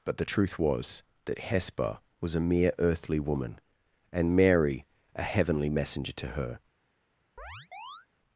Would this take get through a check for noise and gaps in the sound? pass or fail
fail